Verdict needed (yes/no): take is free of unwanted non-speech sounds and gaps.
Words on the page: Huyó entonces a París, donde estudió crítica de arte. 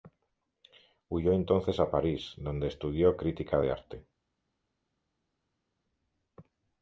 yes